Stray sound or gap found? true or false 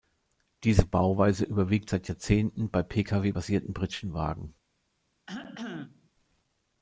true